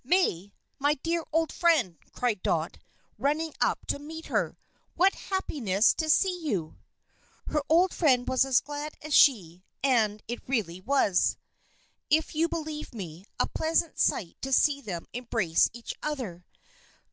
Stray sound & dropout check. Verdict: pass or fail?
pass